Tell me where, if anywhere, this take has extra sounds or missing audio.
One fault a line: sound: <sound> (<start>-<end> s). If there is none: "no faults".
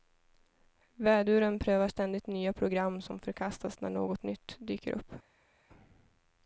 no faults